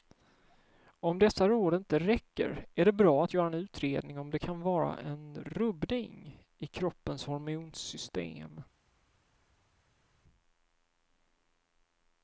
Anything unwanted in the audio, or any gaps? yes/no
no